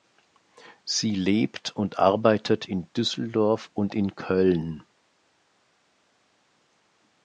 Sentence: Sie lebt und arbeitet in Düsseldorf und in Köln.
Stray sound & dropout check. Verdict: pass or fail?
pass